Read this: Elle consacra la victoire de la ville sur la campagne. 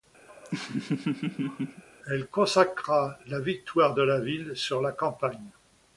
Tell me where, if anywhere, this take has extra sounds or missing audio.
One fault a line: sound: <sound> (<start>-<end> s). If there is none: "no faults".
sound: laugh (0.3-1.8 s)